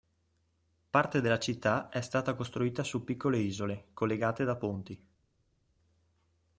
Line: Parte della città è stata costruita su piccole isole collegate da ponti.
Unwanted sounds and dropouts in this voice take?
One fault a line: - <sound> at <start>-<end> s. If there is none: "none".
none